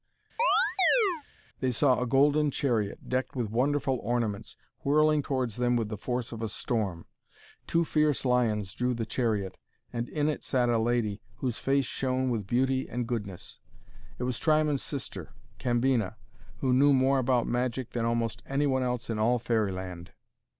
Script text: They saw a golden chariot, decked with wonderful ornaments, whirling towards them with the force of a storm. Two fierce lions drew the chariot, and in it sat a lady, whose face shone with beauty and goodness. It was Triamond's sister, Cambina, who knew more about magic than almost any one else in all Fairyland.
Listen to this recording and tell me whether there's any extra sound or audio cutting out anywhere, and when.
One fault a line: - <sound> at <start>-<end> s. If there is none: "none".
- chirp at 0.4-1.2 s